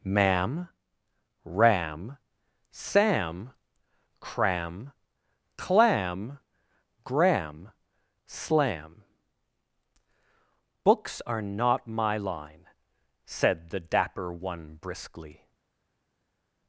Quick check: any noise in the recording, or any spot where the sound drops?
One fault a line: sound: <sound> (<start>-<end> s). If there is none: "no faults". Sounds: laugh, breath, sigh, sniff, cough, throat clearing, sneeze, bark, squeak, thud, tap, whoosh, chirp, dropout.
no faults